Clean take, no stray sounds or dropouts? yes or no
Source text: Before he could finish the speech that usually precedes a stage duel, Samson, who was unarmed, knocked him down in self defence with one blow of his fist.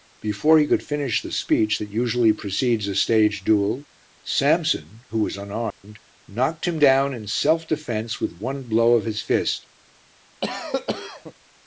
no